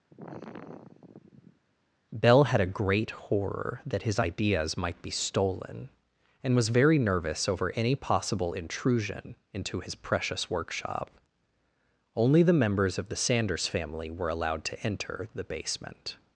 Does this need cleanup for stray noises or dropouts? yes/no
yes